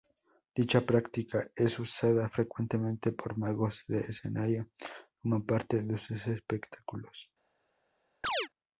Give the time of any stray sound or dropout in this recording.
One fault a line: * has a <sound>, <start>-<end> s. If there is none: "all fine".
* has a chirp, 8.2-8.5 s